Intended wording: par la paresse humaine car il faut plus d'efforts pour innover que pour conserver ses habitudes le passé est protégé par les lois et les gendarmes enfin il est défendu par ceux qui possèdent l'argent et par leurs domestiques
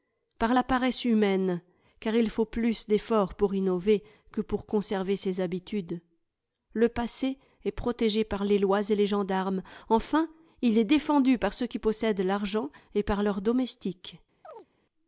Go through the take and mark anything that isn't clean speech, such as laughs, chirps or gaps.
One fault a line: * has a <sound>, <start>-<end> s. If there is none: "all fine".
* has a chirp, 14.4-14.7 s